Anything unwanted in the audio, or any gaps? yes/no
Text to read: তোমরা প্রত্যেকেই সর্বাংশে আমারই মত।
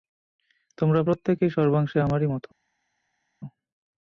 no